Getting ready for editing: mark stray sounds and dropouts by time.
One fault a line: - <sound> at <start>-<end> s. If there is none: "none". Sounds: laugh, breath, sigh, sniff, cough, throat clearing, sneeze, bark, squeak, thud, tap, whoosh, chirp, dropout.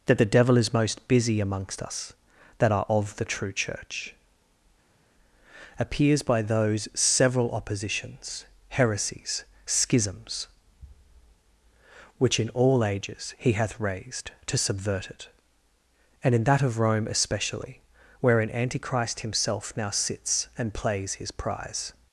none